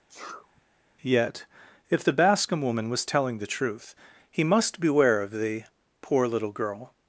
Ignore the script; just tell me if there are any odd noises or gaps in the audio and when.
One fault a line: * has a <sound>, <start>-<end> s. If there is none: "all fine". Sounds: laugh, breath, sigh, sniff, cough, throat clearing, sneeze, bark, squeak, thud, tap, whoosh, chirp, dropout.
* has a sneeze, 0.1-0.6 s